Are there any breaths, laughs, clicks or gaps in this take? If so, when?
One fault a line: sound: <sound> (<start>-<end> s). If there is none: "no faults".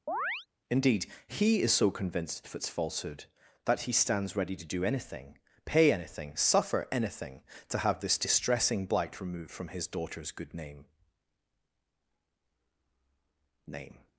sound: chirp (0.1-0.5 s)